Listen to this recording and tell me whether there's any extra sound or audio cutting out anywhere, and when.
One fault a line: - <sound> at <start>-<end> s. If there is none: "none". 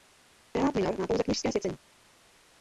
none